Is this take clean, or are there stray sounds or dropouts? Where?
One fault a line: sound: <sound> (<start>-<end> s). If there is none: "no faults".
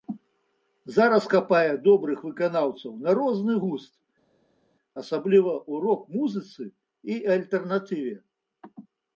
no faults